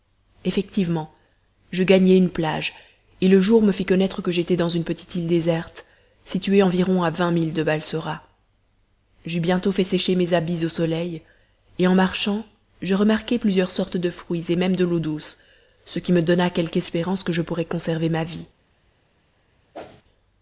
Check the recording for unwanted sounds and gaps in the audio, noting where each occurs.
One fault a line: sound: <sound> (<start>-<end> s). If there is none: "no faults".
sound: whoosh (19.7-20.0 s)